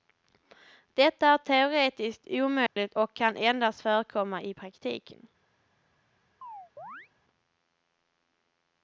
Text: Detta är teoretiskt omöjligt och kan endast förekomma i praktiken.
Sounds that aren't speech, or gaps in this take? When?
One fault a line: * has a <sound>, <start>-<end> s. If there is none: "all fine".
* has a dropout, 2.7-2.8 s
* has a chirp, 6.4-7.1 s